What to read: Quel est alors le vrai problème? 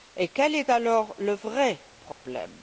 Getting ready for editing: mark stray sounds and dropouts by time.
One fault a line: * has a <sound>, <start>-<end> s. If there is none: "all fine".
* has a dropout, 2.1-2.3 s